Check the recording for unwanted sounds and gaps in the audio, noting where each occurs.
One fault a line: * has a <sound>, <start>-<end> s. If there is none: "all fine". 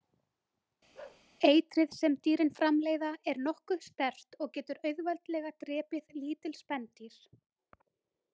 * has a bark, 0.9-1.2 s